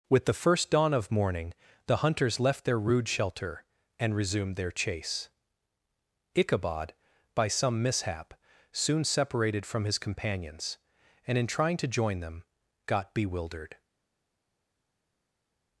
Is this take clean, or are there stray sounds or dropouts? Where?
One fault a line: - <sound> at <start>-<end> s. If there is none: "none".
none